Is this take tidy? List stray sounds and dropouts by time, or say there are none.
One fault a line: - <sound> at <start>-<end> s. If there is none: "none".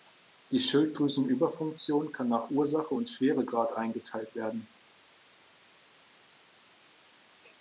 none